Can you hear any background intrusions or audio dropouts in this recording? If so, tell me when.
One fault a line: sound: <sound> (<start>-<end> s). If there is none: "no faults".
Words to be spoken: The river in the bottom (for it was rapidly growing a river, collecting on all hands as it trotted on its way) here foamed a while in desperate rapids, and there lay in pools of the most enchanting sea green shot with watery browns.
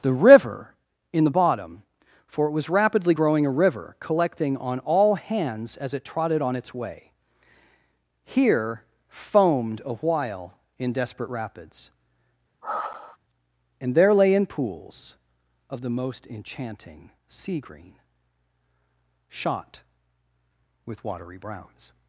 sound: sigh (12.6-13.2 s)